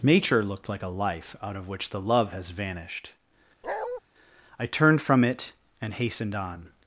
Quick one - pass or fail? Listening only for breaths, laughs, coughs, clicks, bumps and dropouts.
fail